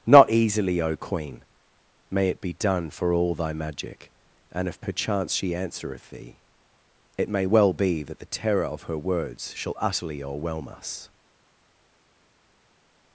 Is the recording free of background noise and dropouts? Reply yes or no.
yes